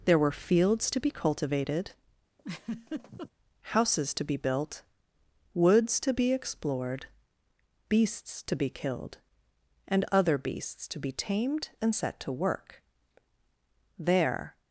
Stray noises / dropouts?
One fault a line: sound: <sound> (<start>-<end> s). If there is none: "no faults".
sound: laugh (2.4-3.3 s)